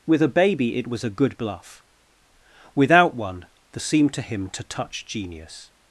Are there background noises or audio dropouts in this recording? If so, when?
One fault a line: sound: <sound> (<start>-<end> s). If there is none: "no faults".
no faults